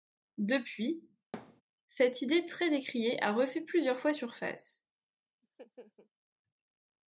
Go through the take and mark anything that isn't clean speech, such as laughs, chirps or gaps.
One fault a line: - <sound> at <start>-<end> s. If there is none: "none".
- thud at 1.3-1.6 s
- laugh at 5.4-6.1 s